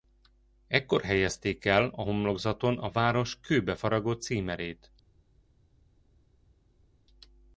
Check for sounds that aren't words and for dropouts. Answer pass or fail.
pass